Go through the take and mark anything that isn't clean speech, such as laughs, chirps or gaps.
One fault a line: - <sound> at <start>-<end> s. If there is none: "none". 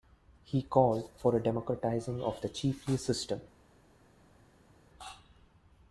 none